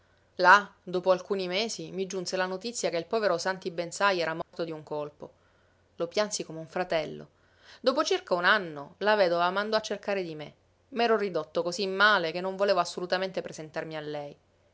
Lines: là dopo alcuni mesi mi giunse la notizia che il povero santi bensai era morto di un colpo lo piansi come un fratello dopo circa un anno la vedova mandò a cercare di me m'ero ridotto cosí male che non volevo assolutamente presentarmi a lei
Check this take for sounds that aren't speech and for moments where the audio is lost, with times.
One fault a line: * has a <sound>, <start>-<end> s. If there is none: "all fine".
* has a dropout, 4.4-4.5 s